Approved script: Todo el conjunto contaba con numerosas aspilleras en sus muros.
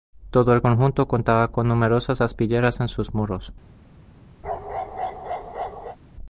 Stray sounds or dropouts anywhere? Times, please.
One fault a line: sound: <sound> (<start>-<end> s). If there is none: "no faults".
sound: bark (4.4-6.0 s)